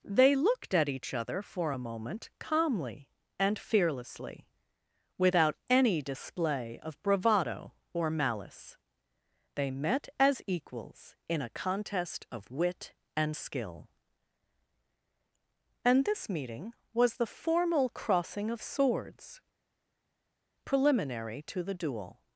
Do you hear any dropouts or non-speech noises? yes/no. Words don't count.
no